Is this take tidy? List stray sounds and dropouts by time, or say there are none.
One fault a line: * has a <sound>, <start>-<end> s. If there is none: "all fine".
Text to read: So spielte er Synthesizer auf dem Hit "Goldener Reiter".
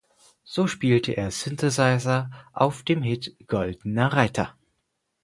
all fine